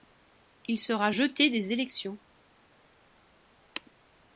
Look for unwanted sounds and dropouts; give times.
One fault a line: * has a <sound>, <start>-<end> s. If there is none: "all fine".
all fine